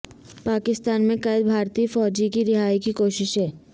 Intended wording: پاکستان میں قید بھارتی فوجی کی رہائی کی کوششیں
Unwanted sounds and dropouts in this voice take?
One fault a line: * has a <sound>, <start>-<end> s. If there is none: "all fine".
all fine